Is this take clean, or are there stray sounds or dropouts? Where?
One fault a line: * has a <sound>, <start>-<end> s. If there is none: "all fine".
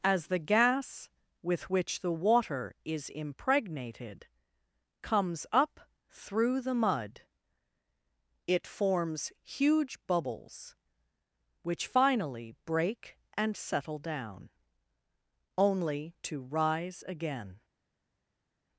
all fine